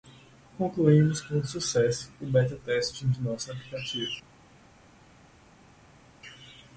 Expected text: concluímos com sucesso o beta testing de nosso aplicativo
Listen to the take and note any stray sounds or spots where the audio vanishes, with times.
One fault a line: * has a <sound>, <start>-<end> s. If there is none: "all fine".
all fine